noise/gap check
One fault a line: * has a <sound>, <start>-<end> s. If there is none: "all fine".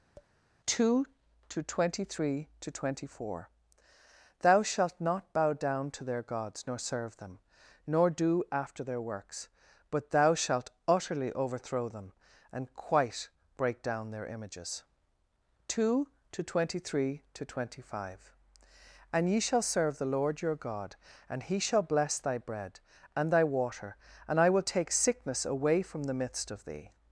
* has a tap, 0.2-0.3 s